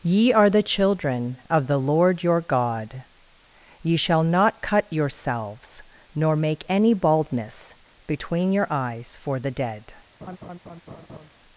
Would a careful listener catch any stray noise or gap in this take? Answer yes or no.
yes